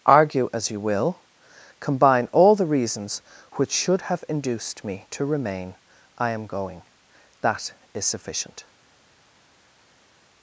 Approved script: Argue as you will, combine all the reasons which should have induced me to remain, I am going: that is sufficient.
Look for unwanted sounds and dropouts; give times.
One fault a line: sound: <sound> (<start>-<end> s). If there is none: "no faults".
no faults